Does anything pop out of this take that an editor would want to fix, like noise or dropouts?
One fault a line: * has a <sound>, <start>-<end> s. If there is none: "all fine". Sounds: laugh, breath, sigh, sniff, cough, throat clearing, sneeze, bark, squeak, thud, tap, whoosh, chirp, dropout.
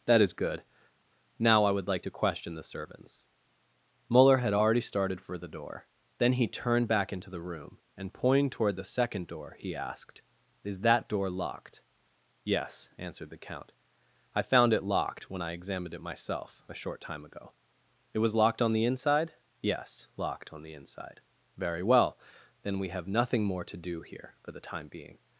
all fine